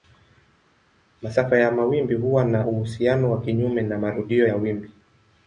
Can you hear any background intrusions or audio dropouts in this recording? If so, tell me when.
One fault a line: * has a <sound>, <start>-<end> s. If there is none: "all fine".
all fine